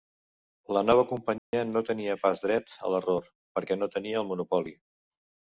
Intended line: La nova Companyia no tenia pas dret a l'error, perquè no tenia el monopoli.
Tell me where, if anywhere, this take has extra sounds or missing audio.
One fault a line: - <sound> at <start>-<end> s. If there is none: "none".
- dropout at 1.4-1.5 s